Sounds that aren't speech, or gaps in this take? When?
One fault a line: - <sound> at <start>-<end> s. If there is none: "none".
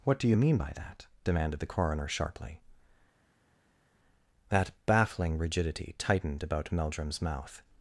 none